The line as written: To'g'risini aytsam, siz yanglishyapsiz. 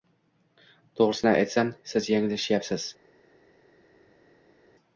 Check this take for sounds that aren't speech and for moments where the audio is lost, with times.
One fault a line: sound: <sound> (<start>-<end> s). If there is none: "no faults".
no faults